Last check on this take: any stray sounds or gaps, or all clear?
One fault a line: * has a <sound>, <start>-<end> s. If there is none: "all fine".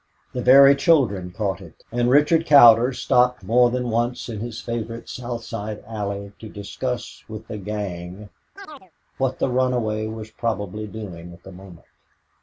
* has a chirp, 8.6-8.9 s